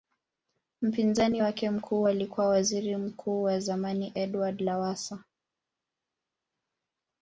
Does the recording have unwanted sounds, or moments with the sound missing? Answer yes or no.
no